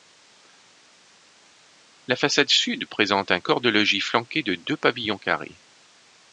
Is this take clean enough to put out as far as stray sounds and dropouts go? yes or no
yes